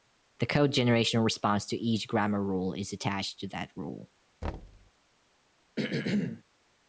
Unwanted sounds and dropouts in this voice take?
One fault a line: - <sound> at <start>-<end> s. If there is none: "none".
- thud at 4.4-4.9 s
- throat clearing at 5.8-6.4 s